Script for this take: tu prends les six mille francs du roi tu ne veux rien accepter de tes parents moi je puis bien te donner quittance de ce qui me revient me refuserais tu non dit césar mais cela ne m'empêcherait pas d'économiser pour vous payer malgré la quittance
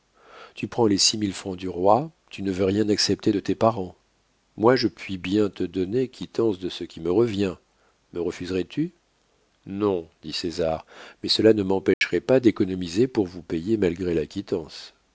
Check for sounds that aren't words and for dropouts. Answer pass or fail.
fail